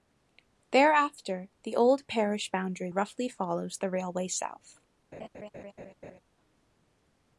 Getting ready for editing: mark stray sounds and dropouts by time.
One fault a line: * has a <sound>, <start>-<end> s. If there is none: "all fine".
* has a laugh, 5.1-6.2 s